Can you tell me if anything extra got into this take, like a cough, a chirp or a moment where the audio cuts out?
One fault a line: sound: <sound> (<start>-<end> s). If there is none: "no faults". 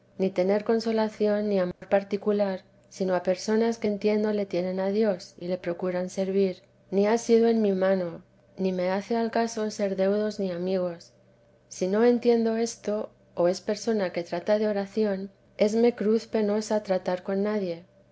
sound: dropout (1.7-1.8 s)